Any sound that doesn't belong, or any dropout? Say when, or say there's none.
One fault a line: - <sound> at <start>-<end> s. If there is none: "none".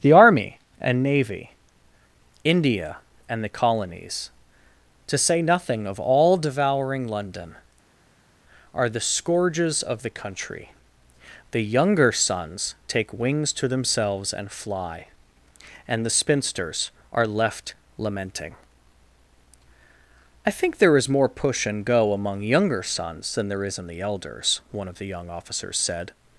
none